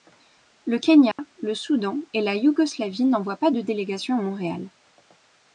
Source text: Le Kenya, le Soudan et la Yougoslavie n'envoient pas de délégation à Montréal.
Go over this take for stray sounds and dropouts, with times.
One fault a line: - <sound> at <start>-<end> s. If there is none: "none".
- dropout at 1.1-1.2 s